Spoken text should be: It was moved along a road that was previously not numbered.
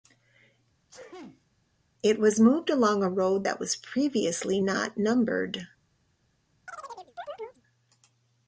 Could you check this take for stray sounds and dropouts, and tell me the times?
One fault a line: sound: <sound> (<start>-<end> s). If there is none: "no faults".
sound: sneeze (0.9-1.5 s)
sound: chirp (6.7-7.6 s)